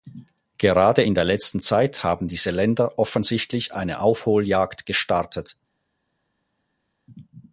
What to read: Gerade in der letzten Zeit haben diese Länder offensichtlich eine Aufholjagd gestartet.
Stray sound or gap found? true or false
false